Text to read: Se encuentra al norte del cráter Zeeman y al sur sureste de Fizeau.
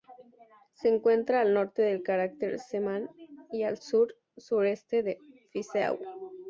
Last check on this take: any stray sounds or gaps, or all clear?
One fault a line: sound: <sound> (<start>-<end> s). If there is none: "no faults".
no faults